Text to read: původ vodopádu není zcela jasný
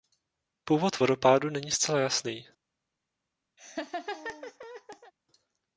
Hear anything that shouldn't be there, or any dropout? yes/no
yes